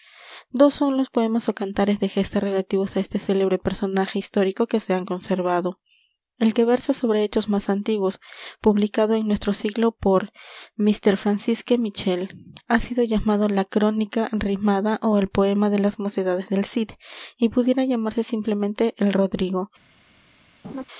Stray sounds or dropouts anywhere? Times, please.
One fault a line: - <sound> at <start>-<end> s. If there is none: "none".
- laugh at 20.6-20.8 s